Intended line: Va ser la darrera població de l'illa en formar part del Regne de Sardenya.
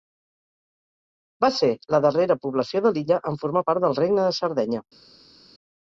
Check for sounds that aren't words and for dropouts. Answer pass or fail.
pass